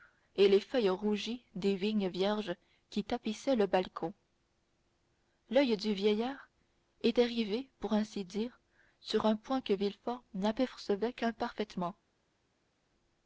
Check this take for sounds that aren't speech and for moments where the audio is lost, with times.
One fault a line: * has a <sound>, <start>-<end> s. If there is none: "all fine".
all fine